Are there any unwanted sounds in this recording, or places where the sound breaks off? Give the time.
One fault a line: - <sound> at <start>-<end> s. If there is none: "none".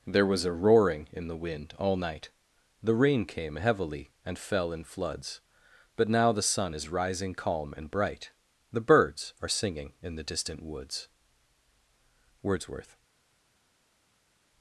none